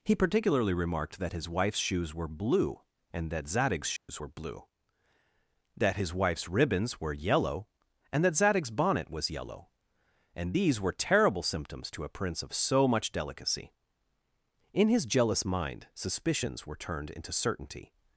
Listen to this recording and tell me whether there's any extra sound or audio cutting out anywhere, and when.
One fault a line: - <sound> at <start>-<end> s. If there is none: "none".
- dropout at 4.0-4.1 s